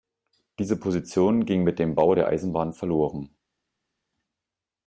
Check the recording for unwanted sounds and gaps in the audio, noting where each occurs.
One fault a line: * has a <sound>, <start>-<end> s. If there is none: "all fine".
all fine